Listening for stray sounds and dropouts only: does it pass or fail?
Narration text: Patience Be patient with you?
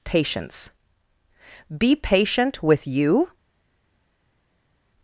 pass